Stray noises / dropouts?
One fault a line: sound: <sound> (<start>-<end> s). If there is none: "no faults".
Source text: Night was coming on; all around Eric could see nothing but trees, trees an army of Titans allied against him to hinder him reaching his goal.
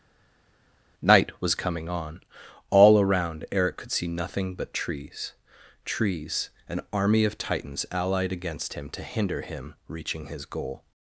no faults